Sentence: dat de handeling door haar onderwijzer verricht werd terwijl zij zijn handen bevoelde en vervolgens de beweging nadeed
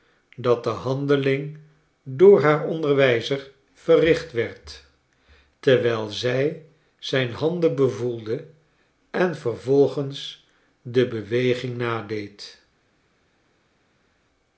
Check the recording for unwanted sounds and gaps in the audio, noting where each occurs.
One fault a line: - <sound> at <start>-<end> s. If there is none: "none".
none